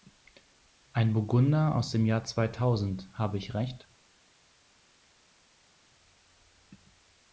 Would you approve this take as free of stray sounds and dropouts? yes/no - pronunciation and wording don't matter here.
yes